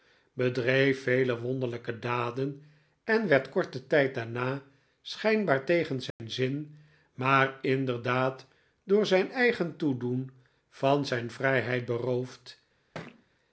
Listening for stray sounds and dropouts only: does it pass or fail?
fail